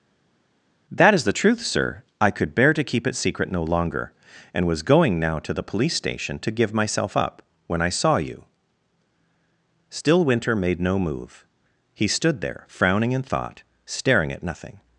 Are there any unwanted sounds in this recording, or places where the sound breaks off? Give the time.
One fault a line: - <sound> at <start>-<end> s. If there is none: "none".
none